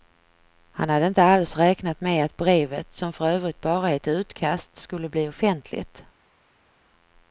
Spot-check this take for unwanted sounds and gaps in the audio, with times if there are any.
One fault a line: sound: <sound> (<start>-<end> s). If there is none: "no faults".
no faults